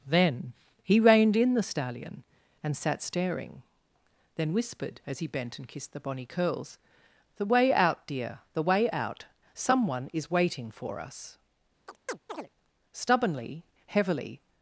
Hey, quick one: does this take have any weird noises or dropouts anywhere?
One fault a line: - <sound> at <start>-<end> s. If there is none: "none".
- chirp at 11.9-12.5 s